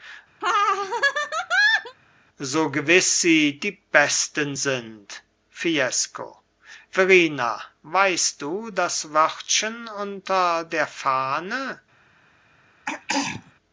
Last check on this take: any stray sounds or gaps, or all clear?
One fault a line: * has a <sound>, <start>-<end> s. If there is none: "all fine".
* has a laugh, 0.4-2.0 s
* has a throat clearing, 12.9-13.5 s